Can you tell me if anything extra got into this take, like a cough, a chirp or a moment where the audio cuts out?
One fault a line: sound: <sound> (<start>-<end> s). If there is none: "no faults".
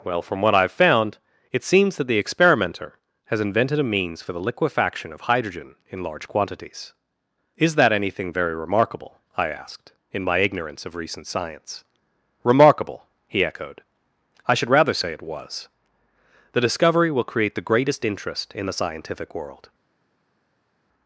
no faults